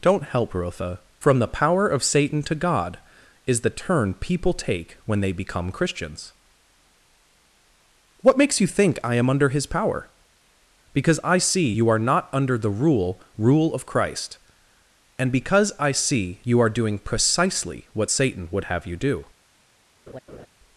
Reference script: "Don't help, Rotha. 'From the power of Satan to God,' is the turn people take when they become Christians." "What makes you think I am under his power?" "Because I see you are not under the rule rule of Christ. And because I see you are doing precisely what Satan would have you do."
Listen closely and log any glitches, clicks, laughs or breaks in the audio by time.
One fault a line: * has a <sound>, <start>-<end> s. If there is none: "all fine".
* has a laugh, 20.1-20.5 s